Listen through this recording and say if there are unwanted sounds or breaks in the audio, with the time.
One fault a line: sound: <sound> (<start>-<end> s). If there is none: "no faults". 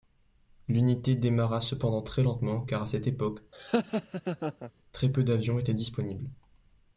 sound: laugh (3.5-4.7 s)